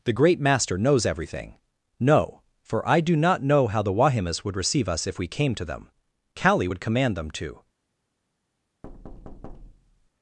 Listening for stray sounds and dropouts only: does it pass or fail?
fail